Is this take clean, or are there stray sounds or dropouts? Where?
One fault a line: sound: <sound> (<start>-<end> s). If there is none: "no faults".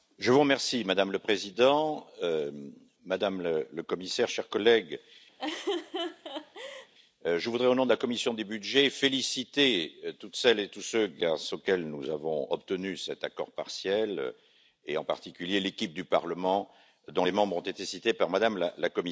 sound: laugh (5.4-6.9 s)